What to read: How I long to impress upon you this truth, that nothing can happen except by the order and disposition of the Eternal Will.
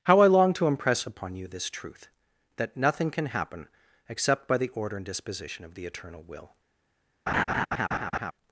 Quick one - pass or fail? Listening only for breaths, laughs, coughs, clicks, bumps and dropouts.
fail